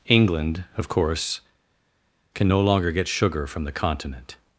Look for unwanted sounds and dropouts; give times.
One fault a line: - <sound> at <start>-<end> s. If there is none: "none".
none